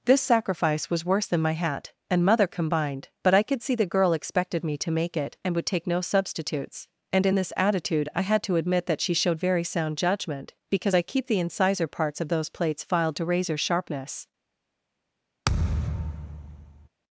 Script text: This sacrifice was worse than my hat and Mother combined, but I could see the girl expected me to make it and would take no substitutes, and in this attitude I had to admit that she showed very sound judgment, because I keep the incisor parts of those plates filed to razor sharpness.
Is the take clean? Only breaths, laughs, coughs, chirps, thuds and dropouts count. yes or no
no